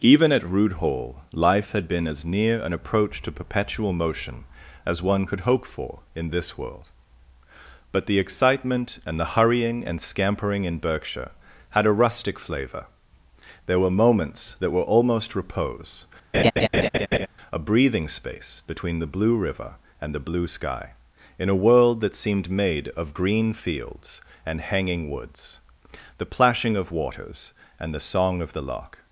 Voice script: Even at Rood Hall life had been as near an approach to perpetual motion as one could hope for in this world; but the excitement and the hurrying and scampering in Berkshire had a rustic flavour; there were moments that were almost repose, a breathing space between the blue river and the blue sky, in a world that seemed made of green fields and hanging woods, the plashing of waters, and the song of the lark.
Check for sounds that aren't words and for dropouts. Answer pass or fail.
fail